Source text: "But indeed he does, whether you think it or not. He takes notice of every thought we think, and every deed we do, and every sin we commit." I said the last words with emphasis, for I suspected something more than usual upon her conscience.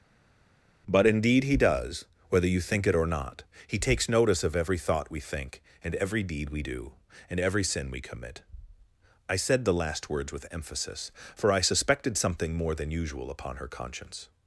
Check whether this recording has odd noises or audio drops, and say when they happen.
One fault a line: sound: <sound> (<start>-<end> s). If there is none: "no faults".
no faults